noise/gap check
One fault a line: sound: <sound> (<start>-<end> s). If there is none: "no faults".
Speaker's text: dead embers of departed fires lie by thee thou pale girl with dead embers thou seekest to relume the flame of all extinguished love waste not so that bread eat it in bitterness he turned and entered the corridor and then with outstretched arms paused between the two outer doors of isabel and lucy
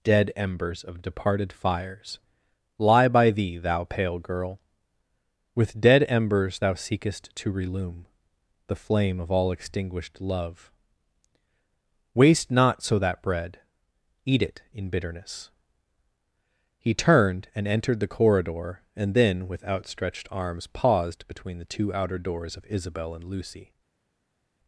no faults